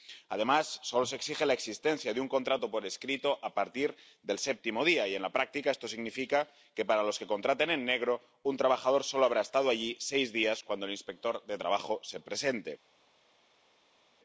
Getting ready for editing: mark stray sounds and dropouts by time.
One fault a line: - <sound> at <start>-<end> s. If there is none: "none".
none